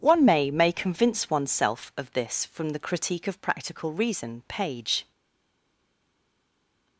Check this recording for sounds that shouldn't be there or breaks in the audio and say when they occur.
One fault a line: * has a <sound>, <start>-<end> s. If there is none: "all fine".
all fine